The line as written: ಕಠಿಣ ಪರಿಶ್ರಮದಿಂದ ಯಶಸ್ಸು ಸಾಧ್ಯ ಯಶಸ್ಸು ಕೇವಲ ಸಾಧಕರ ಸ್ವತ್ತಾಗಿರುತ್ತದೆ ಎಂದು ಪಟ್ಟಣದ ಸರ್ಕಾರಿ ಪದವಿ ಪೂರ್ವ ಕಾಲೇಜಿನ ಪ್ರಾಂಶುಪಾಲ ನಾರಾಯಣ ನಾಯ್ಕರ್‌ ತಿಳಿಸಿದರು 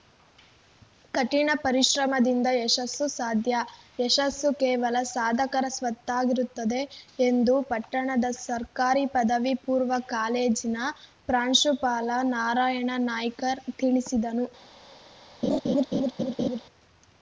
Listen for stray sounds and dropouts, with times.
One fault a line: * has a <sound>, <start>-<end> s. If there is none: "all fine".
* has a laugh, 15.4-16.6 s